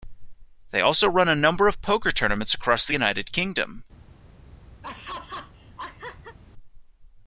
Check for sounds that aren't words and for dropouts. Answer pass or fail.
fail